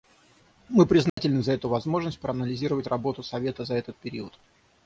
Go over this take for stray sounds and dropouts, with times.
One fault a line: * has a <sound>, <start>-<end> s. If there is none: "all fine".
* has a dropout, 1.1-1.2 s